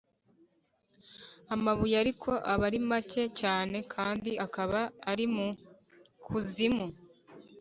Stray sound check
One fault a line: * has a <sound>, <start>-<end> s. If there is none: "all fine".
all fine